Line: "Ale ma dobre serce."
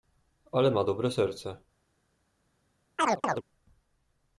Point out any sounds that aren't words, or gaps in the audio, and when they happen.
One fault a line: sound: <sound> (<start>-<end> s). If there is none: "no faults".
sound: chirp (3.0-3.4 s)